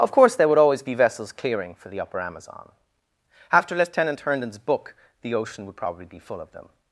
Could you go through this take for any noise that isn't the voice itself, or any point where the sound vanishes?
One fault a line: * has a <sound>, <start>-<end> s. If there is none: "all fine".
all fine